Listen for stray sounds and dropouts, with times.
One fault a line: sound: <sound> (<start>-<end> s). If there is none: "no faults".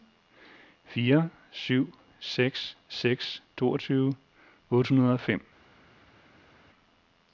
no faults